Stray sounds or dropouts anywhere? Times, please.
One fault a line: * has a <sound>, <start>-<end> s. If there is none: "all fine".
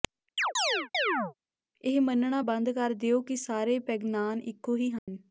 * has a chirp, 0.4-1.3 s
* has a dropout, 5.0-5.1 s